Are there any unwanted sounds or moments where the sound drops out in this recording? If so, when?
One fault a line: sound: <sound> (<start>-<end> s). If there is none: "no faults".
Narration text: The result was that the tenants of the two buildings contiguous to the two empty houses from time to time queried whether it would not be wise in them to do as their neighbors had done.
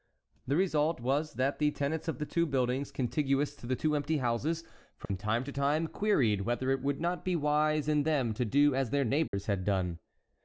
sound: dropout (5.1-5.1 s)
sound: dropout (9.3-9.3 s)